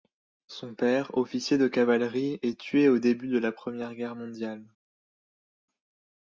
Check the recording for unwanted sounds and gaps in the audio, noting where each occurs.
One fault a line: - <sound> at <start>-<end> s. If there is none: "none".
none